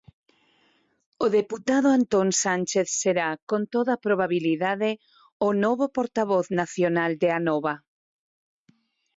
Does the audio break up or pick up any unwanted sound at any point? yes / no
no